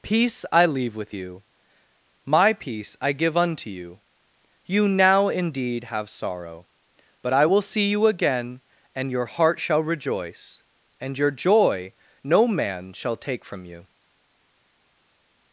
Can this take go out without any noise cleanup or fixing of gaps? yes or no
yes